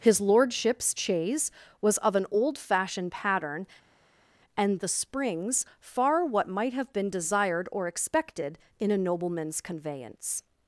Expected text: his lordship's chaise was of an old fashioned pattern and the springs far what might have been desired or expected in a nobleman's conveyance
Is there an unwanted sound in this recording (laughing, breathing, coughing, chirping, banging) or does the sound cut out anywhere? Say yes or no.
no